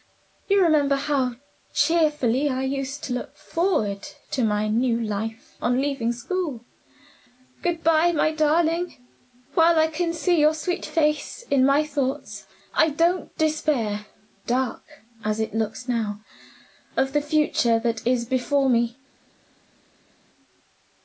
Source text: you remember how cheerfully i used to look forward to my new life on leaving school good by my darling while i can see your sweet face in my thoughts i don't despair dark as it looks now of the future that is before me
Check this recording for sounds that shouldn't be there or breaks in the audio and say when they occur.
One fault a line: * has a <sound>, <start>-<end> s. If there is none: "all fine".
all fine